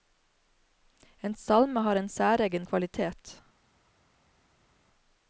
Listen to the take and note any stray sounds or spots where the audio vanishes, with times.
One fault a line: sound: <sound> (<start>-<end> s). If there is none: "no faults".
no faults